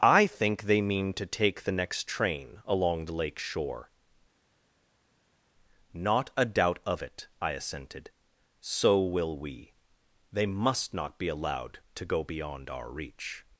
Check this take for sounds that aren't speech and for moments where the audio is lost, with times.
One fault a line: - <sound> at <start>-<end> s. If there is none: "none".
none